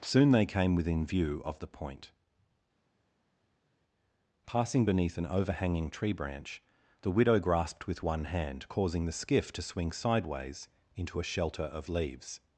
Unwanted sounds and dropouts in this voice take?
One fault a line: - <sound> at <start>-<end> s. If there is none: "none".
none